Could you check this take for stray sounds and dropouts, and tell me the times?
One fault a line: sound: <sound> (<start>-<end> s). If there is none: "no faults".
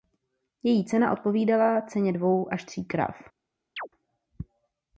sound: chirp (3.8-3.9 s)